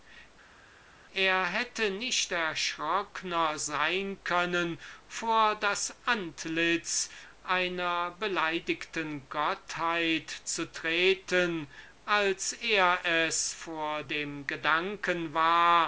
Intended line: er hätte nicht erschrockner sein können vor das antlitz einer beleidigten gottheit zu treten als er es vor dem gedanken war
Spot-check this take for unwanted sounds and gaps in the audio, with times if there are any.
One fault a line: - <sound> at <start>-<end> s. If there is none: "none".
none